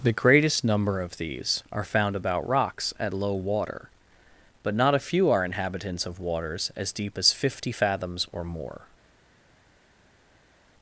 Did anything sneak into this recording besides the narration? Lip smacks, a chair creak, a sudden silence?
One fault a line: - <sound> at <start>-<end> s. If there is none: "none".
none